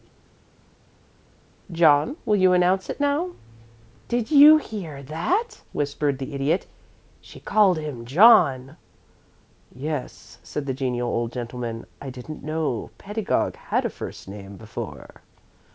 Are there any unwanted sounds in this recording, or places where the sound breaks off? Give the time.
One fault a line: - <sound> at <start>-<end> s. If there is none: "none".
none